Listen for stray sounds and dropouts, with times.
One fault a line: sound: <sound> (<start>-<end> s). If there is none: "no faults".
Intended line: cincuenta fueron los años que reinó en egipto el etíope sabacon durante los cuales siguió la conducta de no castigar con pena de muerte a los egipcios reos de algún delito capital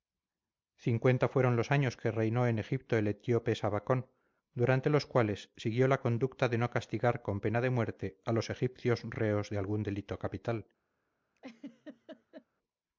sound: laugh (11.4-12.5 s)